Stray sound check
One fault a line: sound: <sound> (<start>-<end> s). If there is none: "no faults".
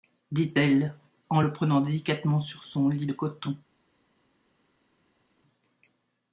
no faults